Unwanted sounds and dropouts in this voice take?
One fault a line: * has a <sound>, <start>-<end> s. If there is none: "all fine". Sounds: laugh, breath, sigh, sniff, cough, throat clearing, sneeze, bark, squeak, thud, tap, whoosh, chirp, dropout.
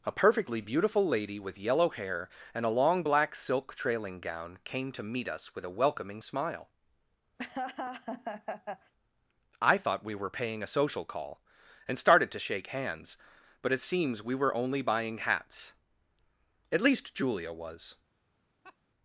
* has a laugh, 7.4-8.9 s
* has a laugh, 18.6-18.8 s